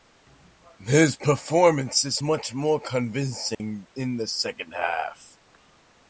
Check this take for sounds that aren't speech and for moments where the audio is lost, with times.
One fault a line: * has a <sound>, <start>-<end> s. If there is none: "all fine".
* has a dropout, 3.5-3.6 s